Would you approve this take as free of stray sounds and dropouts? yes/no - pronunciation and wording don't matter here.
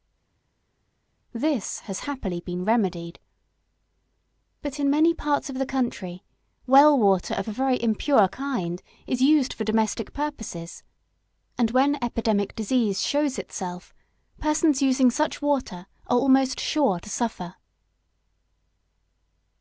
yes